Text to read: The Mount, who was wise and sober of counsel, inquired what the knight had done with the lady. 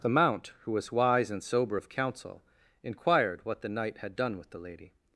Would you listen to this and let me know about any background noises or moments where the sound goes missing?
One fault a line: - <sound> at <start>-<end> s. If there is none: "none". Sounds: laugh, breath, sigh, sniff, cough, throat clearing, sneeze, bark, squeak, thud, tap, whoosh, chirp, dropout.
none